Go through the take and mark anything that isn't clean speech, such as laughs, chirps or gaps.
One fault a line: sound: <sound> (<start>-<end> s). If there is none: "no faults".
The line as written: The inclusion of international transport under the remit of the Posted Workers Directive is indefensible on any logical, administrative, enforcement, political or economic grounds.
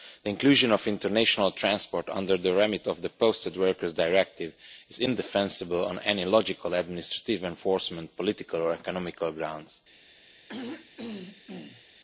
sound: throat clearing (10.5-11.9 s)